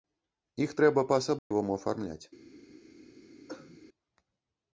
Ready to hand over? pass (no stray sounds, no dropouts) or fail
fail